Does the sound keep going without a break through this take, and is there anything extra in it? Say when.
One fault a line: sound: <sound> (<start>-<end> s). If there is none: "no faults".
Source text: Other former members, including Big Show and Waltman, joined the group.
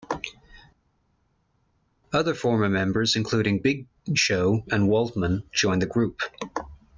no faults